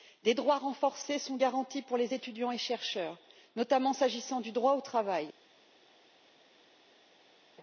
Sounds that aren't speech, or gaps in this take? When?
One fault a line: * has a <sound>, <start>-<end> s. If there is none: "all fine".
all fine